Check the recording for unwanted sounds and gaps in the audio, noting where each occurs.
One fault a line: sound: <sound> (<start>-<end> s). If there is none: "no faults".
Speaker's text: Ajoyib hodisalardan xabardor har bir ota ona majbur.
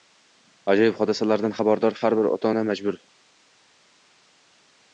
no faults